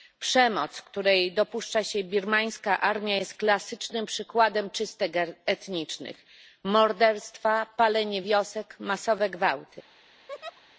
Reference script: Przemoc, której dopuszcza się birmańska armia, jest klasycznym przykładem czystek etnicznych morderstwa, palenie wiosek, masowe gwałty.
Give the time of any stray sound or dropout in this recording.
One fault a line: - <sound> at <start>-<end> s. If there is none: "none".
- laugh at 10.3-10.6 s